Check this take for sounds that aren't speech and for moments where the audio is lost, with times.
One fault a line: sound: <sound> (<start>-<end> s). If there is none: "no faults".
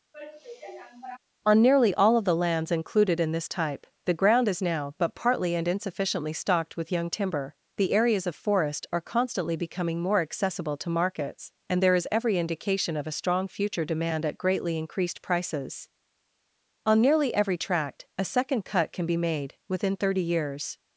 sound: sigh (0.1-1.2 s)